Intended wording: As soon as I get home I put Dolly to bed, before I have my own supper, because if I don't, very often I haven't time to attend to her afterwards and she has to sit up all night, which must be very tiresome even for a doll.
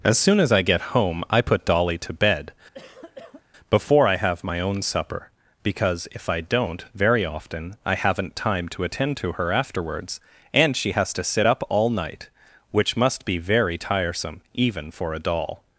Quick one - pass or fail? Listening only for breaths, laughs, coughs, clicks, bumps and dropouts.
fail